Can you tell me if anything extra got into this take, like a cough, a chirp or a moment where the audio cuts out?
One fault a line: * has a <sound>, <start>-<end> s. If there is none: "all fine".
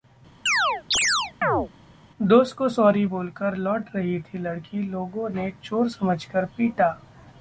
* has a chirp, 0.5-1.7 s